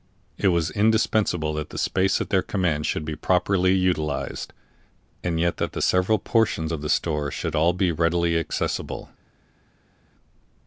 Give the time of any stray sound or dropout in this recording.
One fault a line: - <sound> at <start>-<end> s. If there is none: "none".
none